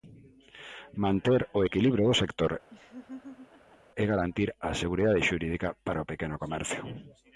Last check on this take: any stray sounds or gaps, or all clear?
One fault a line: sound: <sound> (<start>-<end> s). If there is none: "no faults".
sound: laugh (2.7-3.8 s)